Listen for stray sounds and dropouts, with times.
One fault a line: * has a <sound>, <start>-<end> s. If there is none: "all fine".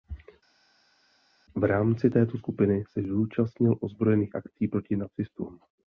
all fine